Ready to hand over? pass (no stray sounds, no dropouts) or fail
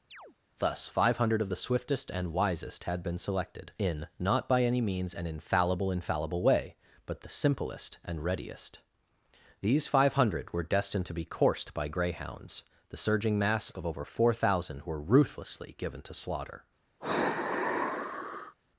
fail